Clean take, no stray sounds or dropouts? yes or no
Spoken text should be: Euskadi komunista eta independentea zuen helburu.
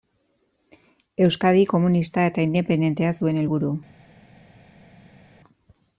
yes